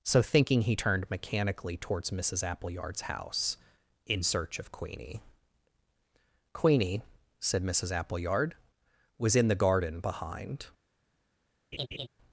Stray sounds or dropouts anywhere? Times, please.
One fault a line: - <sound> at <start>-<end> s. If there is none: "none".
- laugh at 11.7-12.1 s